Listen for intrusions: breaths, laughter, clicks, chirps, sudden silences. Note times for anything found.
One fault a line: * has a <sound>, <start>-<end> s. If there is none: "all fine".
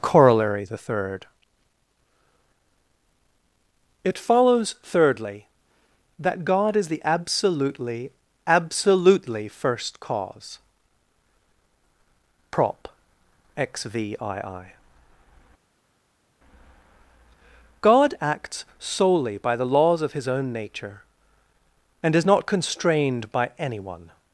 all fine